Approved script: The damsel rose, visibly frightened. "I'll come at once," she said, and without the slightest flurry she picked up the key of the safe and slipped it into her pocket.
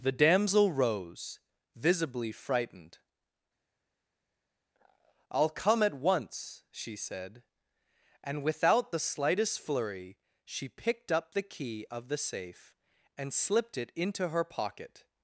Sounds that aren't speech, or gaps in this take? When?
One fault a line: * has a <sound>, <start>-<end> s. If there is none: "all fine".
all fine